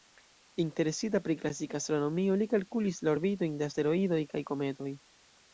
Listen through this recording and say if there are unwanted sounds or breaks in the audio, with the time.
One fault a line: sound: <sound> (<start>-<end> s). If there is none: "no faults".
no faults